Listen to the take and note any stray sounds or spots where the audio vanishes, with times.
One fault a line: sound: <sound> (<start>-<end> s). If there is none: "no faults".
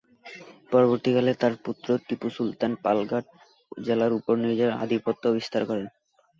no faults